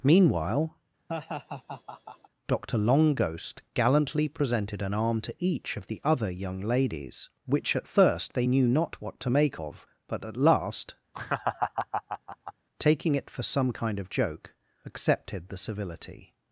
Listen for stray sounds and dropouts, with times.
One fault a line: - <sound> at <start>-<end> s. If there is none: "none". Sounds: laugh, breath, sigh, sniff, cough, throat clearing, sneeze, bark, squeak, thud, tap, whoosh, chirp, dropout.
- laugh at 1.1-2.3 s
- laugh at 11.1-12.5 s